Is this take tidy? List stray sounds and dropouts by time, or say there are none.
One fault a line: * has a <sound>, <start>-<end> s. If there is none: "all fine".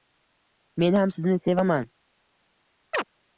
* has a chirp, 2.9-3.0 s